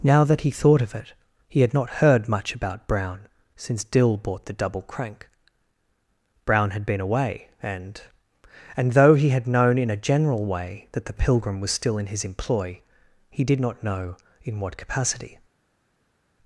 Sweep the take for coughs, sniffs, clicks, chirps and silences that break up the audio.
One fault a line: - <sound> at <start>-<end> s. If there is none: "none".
none